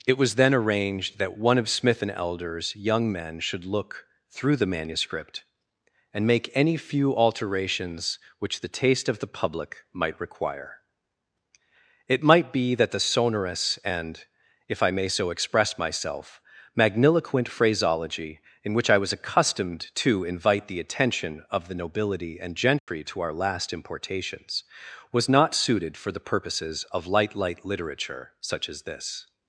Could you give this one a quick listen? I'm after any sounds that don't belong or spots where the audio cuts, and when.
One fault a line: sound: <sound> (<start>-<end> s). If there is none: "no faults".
sound: dropout (22.8-22.9 s)